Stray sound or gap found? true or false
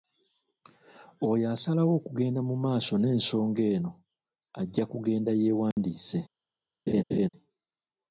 true